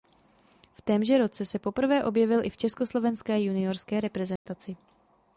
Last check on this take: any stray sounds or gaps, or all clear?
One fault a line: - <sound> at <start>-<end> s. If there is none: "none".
- dropout at 4.4-4.5 s